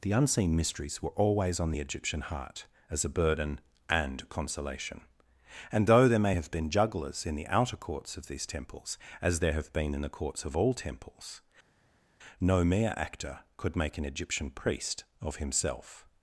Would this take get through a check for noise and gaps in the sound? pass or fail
pass